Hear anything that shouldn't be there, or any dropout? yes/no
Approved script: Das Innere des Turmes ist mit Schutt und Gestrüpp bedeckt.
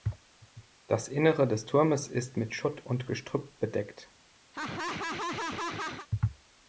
yes